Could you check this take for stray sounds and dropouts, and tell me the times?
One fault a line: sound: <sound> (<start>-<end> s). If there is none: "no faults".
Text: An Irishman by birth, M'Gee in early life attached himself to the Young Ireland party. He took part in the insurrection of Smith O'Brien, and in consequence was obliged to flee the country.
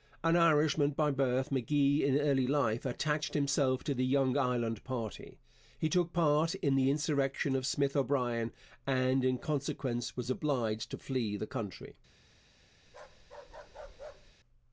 sound: bark (12.9-14.3 s)